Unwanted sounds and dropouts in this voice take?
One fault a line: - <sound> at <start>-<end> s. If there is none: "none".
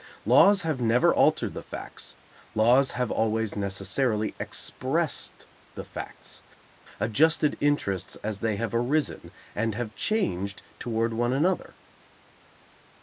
none